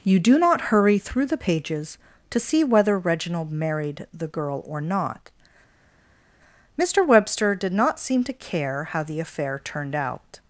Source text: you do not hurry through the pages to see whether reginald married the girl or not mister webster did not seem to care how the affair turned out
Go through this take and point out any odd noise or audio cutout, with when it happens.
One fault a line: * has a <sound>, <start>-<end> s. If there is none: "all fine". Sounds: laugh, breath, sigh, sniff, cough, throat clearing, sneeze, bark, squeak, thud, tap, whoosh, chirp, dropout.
all fine